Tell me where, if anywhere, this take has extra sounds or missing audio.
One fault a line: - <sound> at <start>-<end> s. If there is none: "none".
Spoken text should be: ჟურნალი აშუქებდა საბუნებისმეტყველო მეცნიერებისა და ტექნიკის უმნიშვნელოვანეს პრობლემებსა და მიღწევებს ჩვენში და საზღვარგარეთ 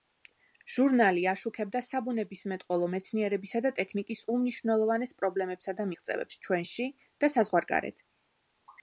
none